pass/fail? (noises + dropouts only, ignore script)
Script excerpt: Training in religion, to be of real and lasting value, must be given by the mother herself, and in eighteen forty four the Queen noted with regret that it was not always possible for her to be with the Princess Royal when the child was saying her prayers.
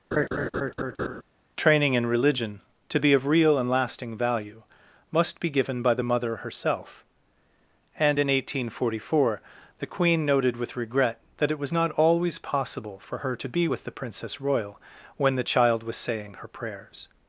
fail